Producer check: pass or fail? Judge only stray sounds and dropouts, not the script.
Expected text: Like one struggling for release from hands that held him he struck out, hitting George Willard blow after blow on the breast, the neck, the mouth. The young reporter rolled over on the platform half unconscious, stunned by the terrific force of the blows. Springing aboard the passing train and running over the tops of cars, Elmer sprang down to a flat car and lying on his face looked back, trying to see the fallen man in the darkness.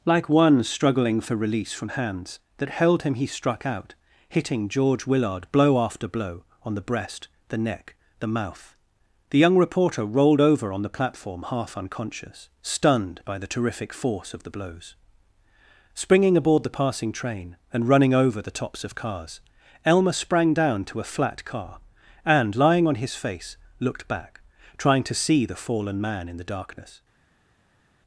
pass